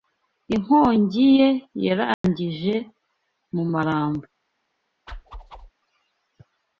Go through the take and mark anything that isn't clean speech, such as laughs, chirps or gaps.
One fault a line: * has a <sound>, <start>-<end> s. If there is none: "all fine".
* has a dropout, 2.1-2.2 s
* has a whoosh, 5.1-5.7 s